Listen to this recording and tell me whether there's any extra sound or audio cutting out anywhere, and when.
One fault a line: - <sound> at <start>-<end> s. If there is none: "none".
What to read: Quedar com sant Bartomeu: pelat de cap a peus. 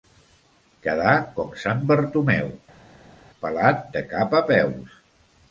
none